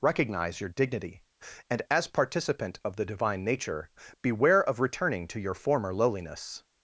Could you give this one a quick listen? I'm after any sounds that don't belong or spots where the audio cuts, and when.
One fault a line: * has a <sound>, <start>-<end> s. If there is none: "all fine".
all fine